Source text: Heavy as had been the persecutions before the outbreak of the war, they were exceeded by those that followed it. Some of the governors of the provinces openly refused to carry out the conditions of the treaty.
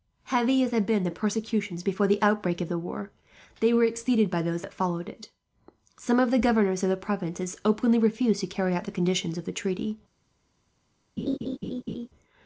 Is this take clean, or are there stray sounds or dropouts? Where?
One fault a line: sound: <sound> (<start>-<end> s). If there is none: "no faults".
sound: laugh (11.2-12.1 s)